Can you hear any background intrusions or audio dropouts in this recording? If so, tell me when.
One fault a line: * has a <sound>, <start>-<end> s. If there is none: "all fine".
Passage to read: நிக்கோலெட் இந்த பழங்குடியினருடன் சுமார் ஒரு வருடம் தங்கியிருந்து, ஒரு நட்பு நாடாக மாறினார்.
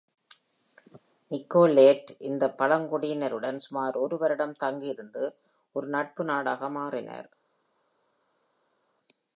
all fine